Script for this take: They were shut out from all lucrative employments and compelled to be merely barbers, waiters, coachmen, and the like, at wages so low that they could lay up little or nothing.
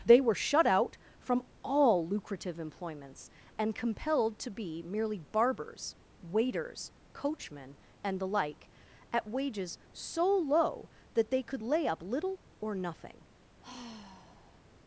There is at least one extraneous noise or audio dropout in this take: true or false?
true